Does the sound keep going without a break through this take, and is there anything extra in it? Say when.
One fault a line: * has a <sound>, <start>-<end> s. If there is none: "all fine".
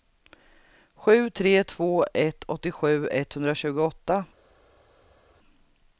all fine